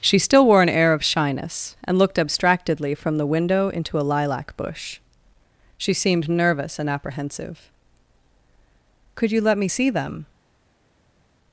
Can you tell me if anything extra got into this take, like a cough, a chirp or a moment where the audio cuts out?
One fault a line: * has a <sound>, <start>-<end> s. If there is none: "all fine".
all fine